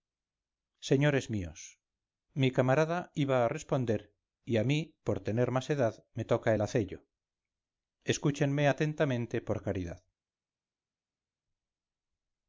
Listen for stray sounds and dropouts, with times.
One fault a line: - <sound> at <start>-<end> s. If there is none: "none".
none